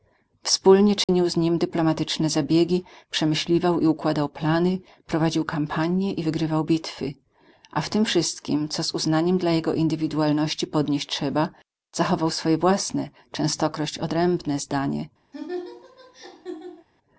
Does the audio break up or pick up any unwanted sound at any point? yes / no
yes